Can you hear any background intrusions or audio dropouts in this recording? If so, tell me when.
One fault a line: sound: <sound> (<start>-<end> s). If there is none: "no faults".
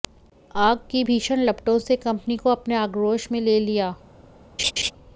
sound: laugh (4.6-4.9 s)